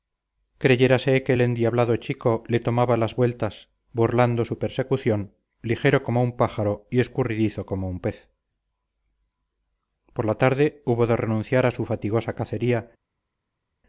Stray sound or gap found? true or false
false